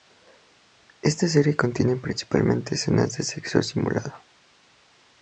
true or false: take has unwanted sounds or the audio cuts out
false